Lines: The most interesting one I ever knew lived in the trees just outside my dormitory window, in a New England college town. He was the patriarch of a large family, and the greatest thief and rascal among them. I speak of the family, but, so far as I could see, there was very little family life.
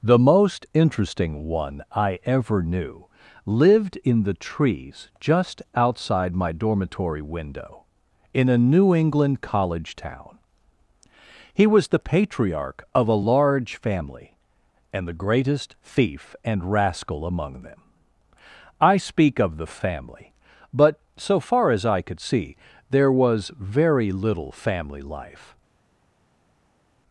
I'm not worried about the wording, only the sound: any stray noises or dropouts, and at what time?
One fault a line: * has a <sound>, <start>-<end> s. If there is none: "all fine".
all fine